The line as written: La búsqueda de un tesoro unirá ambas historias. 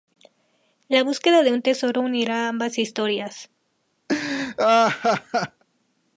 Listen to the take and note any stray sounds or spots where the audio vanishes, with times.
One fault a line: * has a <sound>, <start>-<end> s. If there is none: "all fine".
* has a laugh, 4.1-5.6 s